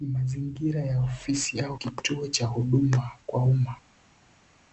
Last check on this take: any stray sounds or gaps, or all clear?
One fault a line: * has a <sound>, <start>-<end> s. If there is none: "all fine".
all fine